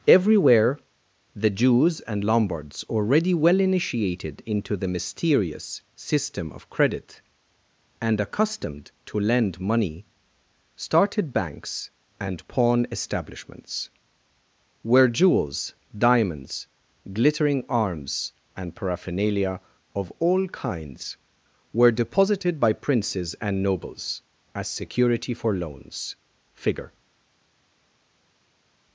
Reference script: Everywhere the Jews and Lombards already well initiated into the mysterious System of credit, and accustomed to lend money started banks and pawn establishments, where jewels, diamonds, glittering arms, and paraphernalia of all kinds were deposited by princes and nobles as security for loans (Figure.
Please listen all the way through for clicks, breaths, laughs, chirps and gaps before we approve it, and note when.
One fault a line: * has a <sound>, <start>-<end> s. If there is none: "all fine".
all fine